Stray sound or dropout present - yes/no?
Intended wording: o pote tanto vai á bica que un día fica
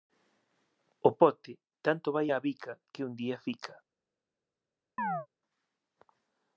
yes